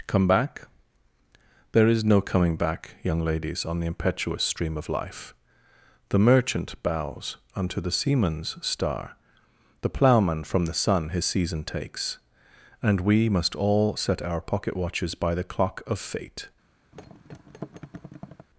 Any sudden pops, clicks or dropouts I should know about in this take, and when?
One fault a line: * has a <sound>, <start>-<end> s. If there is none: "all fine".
* has a thud, 16.9-18.5 s